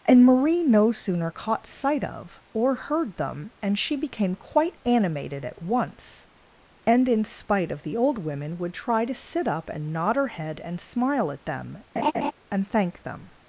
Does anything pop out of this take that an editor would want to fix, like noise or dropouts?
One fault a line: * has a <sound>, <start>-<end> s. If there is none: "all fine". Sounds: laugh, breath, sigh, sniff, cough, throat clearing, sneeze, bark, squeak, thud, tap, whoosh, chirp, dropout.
* has a laugh, 12.0-12.3 s